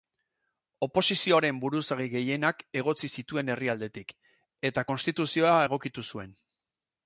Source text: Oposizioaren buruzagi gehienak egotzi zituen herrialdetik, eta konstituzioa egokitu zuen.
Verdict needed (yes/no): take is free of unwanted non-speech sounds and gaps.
yes